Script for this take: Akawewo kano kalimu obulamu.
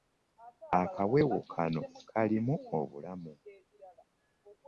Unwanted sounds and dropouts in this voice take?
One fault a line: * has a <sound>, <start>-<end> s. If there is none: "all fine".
all fine